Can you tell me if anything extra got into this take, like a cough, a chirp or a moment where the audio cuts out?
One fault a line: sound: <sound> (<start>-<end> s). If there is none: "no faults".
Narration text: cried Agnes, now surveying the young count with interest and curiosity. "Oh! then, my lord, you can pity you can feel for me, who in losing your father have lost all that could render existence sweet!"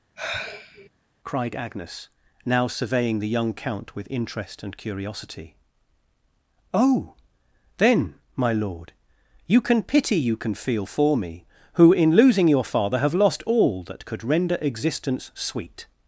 sound: sigh (0.2-0.9 s)